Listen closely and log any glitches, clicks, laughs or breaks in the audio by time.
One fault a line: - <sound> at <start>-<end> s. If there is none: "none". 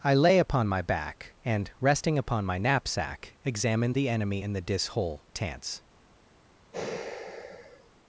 - sigh at 6.7-7.9 s